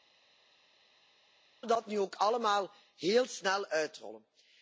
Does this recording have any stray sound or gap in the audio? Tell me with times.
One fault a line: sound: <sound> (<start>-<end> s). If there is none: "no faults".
no faults